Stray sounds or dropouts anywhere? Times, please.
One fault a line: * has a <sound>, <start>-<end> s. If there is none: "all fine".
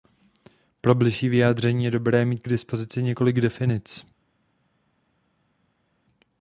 all fine